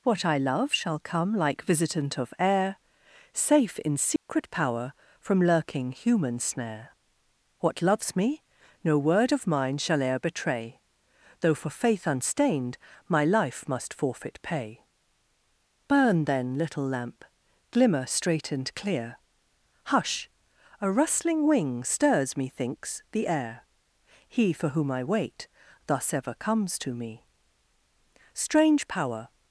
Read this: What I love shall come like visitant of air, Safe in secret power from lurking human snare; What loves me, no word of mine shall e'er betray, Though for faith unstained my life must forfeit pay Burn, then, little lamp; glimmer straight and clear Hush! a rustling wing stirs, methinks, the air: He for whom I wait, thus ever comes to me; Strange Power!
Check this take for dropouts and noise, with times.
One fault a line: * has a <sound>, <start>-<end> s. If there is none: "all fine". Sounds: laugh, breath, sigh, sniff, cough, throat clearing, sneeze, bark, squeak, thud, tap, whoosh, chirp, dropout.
* has a dropout, 4.2-4.3 s